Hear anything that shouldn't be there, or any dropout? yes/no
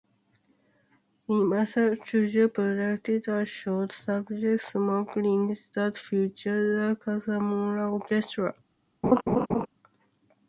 yes